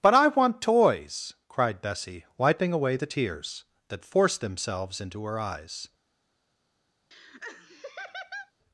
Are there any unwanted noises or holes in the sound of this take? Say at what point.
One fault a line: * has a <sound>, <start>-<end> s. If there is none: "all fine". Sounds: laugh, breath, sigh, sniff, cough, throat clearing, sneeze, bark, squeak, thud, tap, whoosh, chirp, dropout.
* has a laugh, 7.1-8.5 s